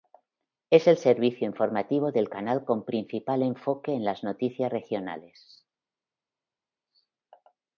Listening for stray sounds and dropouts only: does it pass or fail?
pass